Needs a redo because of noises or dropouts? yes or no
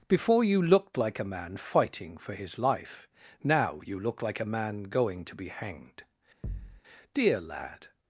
yes